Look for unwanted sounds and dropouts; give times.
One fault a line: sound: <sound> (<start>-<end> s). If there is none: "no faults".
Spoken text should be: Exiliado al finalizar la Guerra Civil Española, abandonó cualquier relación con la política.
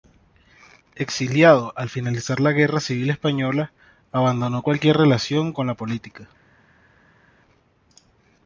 no faults